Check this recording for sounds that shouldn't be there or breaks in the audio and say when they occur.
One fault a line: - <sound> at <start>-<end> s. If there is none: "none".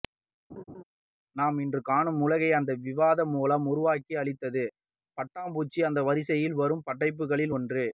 - laugh at 0.5-0.8 s